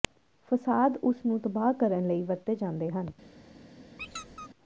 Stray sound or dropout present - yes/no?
yes